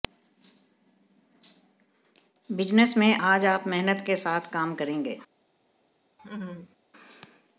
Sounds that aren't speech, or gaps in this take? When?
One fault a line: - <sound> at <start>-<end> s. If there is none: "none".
- laugh at 6.2-6.8 s